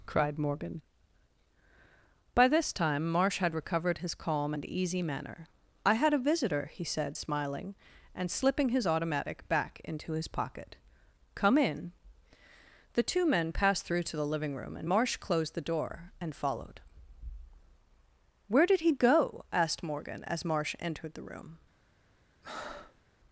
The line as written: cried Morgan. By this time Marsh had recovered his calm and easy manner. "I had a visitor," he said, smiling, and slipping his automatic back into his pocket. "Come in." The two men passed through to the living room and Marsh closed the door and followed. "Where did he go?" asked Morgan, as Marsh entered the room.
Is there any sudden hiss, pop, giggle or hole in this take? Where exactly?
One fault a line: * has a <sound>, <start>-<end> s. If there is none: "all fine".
* has a breath, 22.4-23.0 s